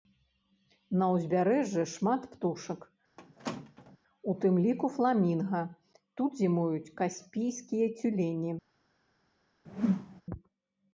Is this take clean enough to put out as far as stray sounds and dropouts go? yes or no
no